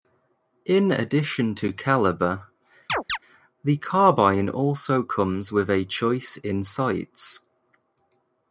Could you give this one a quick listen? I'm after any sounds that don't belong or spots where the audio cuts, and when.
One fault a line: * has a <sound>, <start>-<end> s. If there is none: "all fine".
* has a chirp, 2.9-3.2 s